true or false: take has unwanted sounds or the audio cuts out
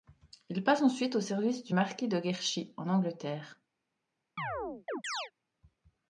true